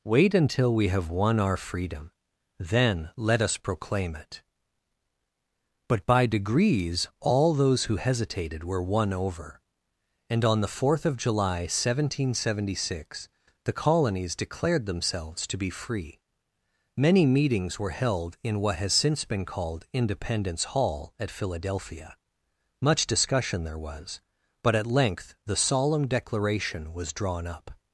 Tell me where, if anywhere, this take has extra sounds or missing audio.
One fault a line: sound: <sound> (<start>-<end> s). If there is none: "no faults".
no faults